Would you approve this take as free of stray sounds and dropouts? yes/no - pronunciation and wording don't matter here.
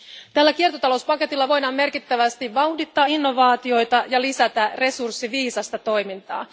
yes